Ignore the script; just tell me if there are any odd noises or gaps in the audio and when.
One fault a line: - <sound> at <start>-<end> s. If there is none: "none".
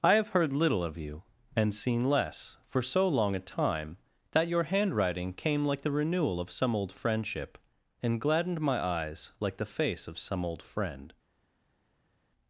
none